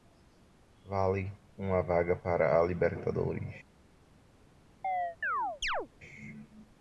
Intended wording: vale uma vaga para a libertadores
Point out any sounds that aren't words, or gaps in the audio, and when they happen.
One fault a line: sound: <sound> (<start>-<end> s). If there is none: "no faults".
sound: chirp (4.8-5.9 s)